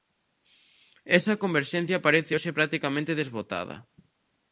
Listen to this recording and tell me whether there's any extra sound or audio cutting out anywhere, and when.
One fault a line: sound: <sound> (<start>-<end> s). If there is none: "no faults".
no faults